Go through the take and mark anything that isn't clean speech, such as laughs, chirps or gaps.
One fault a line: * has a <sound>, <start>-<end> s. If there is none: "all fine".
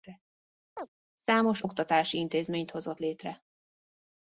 * has a chirp, 0.8-0.9 s